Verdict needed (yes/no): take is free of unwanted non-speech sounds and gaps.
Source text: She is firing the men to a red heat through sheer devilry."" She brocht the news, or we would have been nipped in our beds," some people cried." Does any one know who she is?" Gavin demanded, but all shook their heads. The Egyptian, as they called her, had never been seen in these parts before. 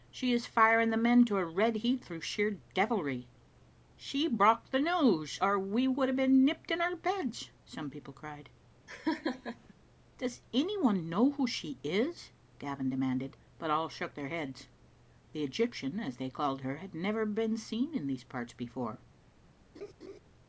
no